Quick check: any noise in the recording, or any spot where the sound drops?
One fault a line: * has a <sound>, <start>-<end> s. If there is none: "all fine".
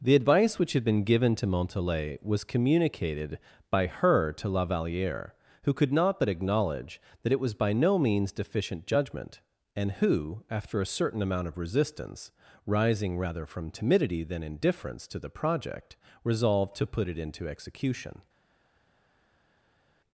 all fine